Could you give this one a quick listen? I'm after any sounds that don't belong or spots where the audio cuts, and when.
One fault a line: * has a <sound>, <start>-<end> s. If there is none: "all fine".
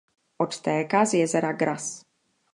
all fine